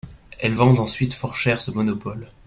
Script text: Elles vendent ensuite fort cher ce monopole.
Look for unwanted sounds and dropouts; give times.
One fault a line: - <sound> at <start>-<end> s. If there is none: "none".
none